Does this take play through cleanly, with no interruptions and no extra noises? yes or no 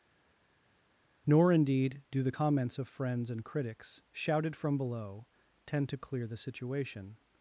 yes